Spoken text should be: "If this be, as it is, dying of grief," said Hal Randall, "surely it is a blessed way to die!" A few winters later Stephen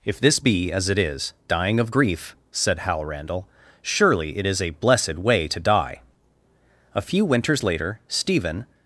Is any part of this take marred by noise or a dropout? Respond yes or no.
no